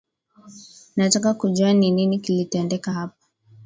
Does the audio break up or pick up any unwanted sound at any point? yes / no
no